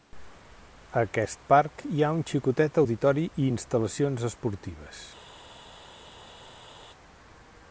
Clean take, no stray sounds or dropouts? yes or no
yes